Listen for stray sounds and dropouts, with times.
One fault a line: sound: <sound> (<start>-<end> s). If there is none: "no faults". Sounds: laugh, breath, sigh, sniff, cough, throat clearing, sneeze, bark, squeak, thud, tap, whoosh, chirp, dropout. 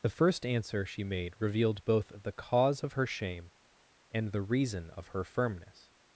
no faults